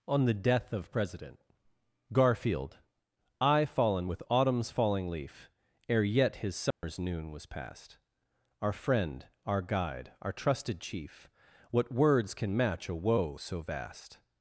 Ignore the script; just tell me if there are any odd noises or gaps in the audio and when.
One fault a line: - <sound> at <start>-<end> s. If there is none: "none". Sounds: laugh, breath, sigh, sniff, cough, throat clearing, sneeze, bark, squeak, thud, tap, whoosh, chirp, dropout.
- dropout at 6.7-6.8 s